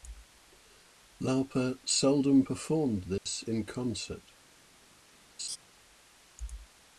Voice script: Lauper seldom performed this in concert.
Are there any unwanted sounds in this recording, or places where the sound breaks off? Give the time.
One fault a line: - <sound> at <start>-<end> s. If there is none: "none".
- dropout at 3.2-3.3 s
- laugh at 5.4-5.6 s